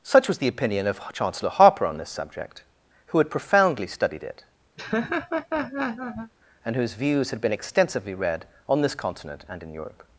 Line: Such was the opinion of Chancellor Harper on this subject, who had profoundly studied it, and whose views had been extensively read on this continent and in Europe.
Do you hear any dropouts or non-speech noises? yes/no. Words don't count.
yes